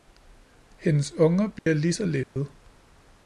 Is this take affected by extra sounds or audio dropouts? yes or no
yes